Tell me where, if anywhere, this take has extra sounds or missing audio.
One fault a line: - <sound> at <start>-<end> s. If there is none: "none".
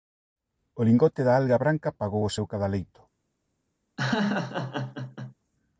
- laugh at 4.0-5.3 s